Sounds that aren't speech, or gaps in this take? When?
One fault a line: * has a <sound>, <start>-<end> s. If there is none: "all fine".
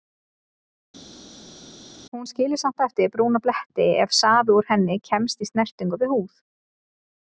all fine